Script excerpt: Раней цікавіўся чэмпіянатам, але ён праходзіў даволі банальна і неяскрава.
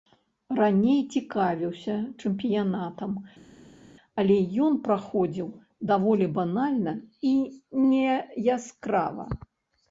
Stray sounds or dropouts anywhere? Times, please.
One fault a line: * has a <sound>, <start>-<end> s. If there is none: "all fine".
all fine